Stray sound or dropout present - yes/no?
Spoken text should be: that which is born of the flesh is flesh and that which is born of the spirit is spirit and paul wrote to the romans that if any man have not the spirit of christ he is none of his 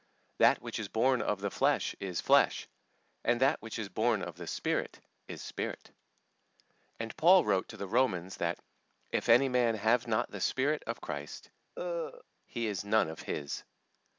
yes